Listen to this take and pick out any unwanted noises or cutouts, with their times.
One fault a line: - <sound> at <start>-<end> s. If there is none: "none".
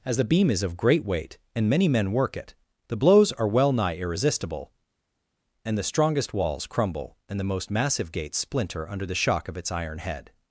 none